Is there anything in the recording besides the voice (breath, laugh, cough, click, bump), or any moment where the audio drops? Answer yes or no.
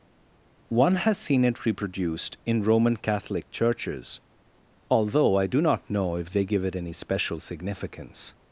no